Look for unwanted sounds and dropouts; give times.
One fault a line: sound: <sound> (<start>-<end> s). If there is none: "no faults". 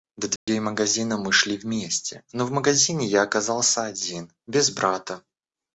sound: dropout (0.4-0.5 s)